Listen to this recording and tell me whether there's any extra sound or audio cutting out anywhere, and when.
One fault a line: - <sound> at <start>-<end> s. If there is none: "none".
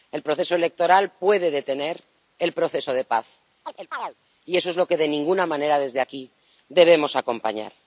- chirp at 3.6-4.1 s